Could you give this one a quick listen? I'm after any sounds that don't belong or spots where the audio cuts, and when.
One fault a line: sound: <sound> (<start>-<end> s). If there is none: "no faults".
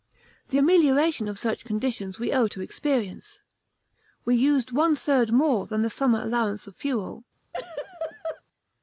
sound: laugh (7.5-8.4 s)